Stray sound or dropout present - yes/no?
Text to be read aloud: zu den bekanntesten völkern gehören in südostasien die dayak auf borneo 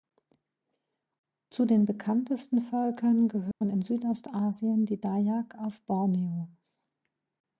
yes